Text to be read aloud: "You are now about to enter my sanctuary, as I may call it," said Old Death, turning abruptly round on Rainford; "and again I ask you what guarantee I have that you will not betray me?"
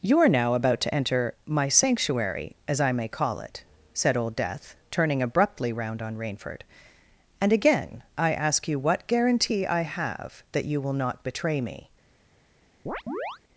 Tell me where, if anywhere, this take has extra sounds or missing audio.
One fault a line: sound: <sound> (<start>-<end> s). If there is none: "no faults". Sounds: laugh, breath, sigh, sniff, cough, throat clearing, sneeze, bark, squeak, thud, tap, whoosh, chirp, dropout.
sound: chirp (12.9-13.4 s)